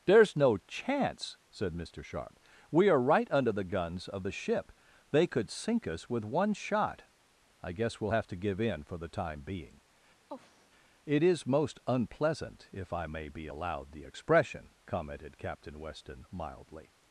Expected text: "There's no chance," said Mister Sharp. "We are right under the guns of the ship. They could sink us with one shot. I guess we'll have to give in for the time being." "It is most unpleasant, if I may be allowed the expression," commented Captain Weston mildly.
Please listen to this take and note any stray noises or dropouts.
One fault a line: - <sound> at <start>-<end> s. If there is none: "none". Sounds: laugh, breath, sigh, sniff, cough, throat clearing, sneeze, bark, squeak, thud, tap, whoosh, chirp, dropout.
- sigh at 10.3-10.7 s